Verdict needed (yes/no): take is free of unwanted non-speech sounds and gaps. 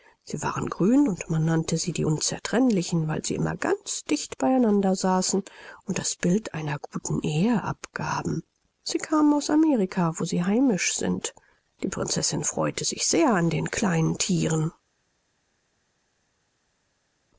yes